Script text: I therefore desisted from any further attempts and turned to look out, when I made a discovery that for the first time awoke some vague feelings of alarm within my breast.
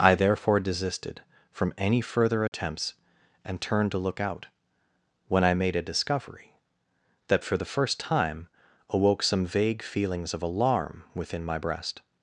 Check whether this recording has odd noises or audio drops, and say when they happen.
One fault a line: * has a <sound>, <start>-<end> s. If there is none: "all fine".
* has a dropout, 2.5-2.5 s